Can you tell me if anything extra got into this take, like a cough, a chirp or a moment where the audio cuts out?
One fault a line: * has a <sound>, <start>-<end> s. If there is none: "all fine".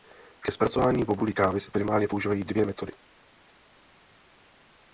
all fine